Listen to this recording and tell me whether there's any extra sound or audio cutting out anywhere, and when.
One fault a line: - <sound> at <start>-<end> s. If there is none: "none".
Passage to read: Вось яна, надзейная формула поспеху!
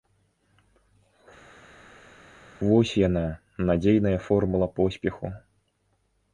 none